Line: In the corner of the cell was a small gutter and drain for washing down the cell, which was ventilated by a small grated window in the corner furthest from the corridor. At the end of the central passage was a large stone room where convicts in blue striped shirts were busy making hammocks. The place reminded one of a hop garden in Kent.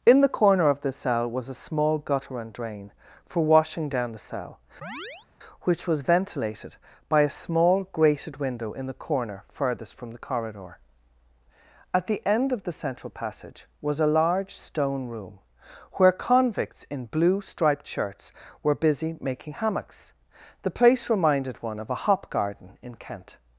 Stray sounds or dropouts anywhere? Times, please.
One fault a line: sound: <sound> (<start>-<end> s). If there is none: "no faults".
sound: chirp (4.8-5.3 s)